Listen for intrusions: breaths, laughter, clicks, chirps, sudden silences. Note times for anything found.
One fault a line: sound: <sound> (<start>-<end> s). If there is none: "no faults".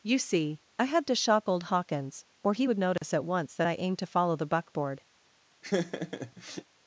sound: dropout (3.0-3.0 s)
sound: laugh (5.6-6.6 s)